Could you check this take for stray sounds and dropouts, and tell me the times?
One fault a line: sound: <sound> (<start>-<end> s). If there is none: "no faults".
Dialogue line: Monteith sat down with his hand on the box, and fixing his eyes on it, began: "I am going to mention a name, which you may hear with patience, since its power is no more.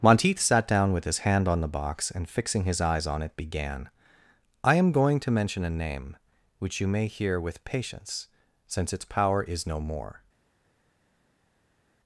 no faults